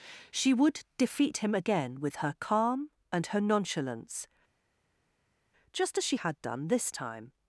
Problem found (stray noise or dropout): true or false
false